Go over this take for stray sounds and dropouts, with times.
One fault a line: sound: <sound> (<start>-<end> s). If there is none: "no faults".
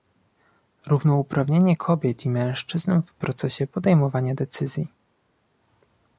no faults